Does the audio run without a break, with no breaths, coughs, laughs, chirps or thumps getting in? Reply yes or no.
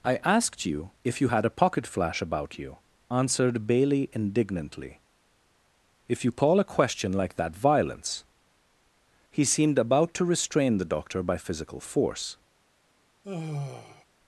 no